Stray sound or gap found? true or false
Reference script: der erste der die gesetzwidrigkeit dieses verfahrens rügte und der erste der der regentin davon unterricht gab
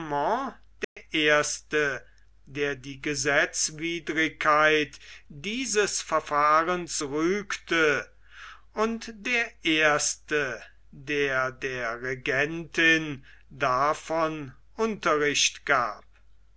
true